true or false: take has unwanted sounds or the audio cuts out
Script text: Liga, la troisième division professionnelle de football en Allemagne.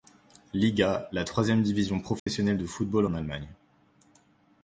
true